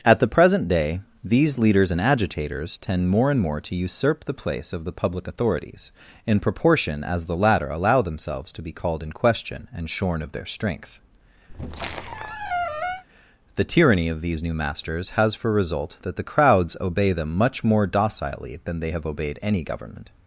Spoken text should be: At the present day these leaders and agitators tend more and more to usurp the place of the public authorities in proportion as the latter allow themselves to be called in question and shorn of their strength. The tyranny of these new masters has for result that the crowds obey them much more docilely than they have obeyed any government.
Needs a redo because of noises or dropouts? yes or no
yes